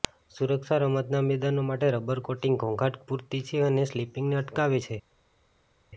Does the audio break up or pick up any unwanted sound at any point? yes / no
no